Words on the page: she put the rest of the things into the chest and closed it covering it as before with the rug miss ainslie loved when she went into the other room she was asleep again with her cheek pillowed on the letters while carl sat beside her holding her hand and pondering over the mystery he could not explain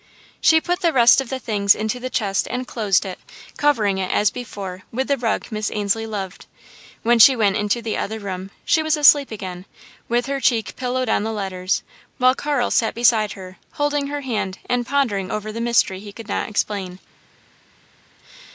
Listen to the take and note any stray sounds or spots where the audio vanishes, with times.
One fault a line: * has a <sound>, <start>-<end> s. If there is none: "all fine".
all fine